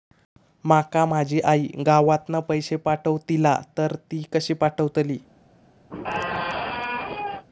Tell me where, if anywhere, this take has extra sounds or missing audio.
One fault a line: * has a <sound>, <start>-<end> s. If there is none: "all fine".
* has a squeak, 5.9-7.5 s